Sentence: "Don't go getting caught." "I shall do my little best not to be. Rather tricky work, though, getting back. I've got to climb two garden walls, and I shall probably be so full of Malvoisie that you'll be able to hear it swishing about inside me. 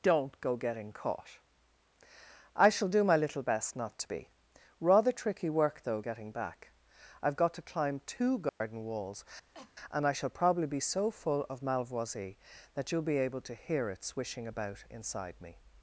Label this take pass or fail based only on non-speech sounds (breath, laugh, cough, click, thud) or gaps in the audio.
fail